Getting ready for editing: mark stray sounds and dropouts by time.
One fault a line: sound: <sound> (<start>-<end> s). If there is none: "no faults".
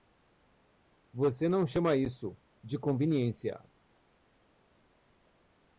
no faults